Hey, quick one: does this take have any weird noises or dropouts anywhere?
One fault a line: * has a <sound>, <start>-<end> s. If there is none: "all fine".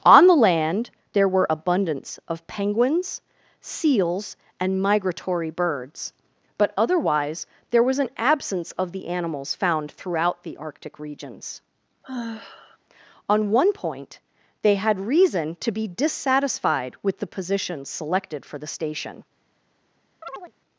* has a sigh, 12.0-12.8 s
* has a chirp, 20.2-20.5 s